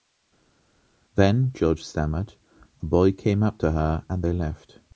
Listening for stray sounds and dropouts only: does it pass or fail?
pass